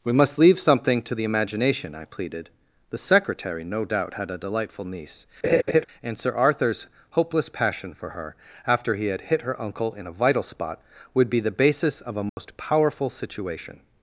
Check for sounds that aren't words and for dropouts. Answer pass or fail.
fail